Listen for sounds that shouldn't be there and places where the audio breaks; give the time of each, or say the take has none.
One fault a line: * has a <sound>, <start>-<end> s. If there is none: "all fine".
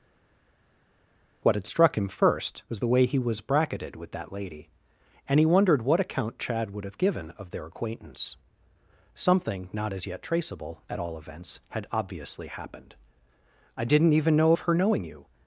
all fine